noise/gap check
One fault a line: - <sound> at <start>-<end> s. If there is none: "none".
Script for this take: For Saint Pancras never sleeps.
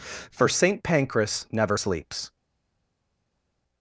none